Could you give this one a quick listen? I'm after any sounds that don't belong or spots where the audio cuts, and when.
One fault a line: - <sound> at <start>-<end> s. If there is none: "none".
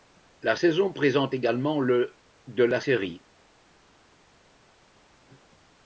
none